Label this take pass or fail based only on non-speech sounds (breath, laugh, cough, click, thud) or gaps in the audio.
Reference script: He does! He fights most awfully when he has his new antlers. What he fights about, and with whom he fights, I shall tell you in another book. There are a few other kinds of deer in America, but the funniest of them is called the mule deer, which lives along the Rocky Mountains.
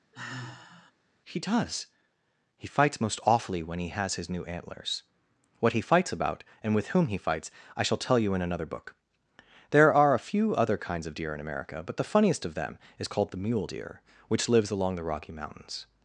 fail